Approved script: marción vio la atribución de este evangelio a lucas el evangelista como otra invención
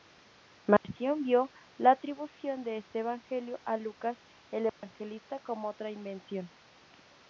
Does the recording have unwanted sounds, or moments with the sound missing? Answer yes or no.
yes